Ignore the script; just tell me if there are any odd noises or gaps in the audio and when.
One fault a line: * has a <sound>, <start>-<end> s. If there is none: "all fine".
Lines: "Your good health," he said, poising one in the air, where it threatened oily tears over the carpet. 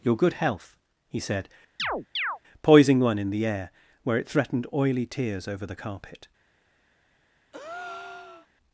* has a chirp, 1.8-2.4 s
* has a breath, 7.5-8.5 s